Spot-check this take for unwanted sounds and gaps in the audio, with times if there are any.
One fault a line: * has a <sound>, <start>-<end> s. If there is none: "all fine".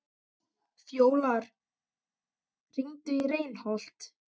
all fine